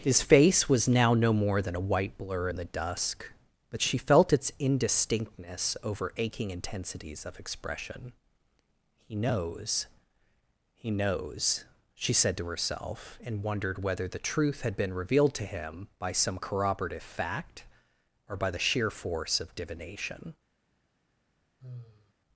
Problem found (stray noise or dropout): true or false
true